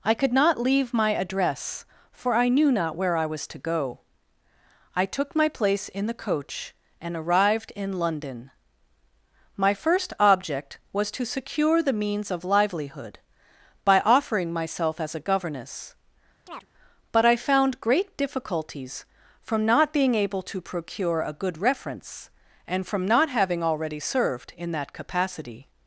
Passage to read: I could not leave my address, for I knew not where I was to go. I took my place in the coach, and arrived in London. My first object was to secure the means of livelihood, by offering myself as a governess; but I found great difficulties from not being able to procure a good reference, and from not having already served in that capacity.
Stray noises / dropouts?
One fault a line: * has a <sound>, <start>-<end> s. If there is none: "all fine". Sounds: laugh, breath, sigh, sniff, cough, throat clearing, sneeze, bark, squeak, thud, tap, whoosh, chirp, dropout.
* has a chirp, 16.5-16.7 s